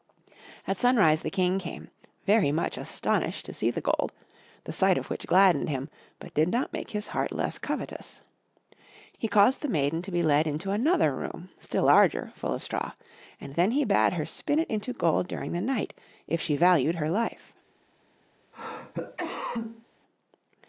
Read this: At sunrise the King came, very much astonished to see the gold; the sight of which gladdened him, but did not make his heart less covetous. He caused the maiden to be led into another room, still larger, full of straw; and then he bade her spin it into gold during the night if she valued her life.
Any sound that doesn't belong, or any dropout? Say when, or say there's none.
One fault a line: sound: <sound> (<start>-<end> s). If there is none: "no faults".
sound: cough (18.5-19.9 s)